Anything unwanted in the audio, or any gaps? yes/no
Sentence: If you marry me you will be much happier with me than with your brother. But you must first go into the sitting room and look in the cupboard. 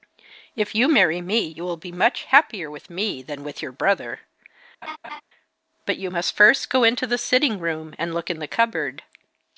yes